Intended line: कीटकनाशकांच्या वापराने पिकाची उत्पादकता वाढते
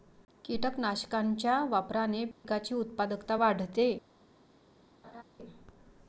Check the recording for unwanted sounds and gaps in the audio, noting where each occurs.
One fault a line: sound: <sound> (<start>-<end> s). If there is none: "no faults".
sound: dropout (2.3-2.4 s)
sound: laugh (5.0-5.2 s)